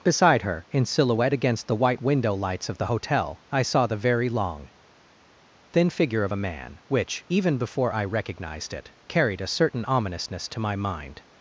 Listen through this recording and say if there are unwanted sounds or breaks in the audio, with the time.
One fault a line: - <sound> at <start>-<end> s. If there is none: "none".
none